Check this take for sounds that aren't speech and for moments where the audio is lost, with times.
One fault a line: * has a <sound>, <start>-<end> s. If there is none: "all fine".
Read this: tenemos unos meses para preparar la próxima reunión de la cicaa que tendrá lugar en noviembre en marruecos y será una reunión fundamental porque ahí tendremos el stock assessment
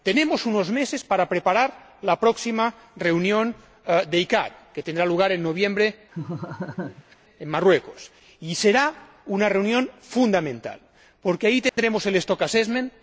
* has a laugh, 6.1-7.1 s
* has a dropout, 11.7-11.8 s